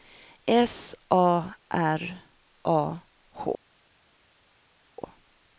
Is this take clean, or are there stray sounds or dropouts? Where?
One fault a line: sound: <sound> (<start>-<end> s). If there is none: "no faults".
no faults